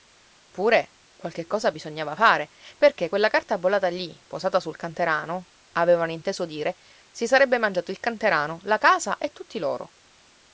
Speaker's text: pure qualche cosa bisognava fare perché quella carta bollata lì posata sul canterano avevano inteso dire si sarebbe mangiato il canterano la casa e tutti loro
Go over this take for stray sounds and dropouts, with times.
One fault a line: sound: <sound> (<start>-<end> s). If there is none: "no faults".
no faults